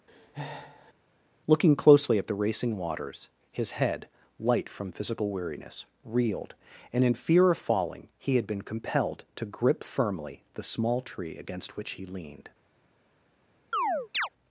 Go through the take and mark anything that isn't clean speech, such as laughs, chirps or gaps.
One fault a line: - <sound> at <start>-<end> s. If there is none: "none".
- breath at 0.1-0.9 s
- chirp at 13.7-14.3 s